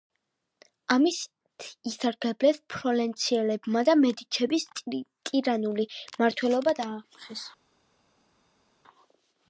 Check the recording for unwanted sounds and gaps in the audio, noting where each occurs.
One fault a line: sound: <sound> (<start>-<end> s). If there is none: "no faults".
no faults